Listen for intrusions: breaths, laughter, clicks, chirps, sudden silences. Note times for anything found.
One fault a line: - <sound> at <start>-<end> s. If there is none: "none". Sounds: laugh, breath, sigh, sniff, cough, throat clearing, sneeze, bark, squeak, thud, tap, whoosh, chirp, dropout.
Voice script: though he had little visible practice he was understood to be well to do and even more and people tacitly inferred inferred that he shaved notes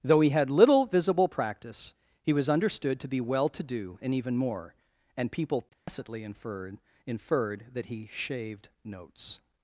- dropout at 5.7-5.9 s